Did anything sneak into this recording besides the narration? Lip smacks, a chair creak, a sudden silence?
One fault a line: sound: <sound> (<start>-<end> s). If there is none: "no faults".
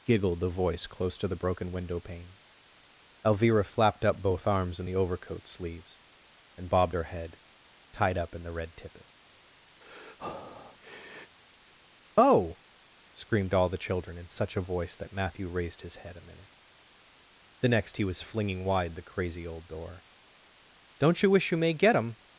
sound: breath (9.8-11.4 s)